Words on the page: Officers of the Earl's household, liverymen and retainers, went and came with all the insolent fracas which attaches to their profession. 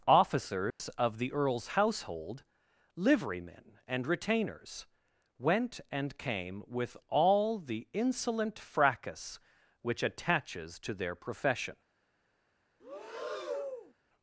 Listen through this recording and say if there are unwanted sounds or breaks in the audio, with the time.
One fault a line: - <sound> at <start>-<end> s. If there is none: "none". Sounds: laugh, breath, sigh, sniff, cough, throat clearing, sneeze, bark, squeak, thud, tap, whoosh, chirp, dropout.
- dropout at 0.7-0.8 s
- breath at 12.8-13.9 s